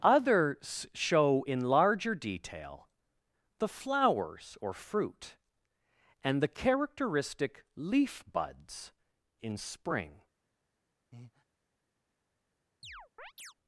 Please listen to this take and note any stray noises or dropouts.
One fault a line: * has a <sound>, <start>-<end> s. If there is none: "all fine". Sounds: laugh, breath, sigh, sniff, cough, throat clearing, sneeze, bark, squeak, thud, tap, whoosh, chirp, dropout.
* has a breath, 11.1-11.4 s
* has a chirp, 12.8-13.5 s